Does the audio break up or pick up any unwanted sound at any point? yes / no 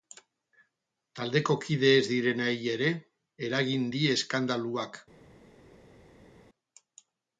no